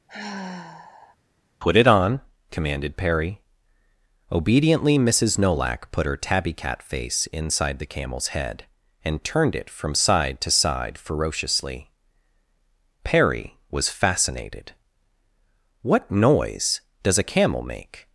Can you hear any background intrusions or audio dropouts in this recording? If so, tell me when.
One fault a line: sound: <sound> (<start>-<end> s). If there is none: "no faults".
sound: sigh (0.1-1.2 s)